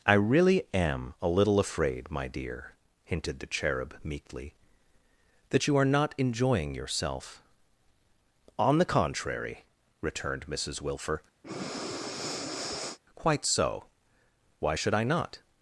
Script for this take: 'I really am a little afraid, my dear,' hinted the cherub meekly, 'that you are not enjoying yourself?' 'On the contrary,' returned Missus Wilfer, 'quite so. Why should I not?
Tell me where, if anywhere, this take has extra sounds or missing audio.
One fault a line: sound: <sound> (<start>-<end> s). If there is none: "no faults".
sound: breath (11.4-13.0 s)